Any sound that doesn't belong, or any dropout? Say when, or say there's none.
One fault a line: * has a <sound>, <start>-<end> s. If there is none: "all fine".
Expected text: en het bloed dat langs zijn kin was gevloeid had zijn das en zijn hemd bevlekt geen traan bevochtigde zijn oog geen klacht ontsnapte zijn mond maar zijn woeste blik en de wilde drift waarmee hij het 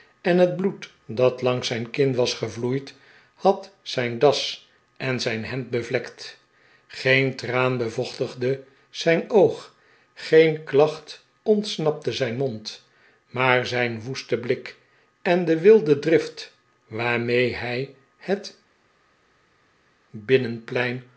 all fine